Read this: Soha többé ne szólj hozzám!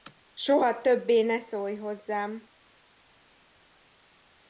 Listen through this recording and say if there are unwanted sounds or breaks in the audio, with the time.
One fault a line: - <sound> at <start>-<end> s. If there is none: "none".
none